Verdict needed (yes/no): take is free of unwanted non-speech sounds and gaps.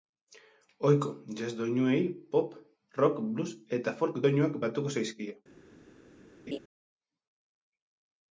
no